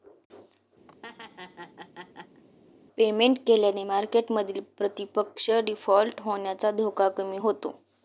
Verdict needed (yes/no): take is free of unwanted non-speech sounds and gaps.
no